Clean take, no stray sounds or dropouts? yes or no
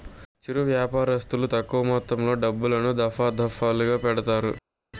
yes